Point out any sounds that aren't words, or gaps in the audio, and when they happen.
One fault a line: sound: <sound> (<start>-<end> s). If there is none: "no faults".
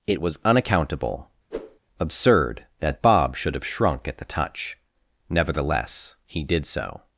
sound: whoosh (1.5-1.8 s)